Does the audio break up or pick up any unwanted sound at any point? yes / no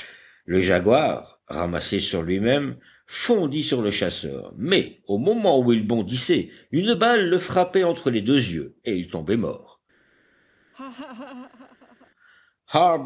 yes